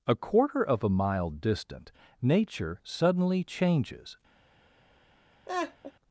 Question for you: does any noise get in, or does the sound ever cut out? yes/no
yes